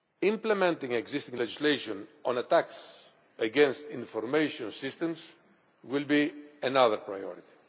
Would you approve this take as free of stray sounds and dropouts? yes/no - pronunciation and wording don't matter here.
yes